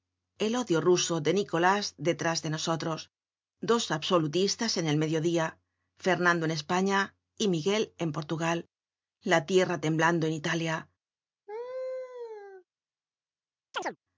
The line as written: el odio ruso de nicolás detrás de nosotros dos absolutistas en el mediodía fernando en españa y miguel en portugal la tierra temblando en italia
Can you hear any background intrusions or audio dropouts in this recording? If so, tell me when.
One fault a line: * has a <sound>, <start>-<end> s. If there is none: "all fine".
* has a laugh, 11.5-12.6 s
* has a chirp, 13.7-14.0 s